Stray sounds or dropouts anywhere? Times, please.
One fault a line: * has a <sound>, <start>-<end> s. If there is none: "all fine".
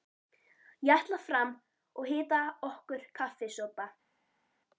all fine